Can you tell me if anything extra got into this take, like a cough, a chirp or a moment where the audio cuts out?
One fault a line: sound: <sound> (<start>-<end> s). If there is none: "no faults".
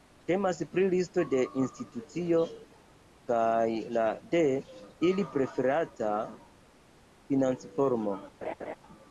sound: laugh (8.4-8.8 s)